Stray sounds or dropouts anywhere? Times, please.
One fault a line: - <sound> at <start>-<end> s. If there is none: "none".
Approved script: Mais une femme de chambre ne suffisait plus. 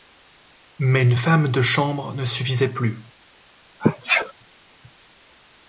- sneeze at 3.8-4.3 s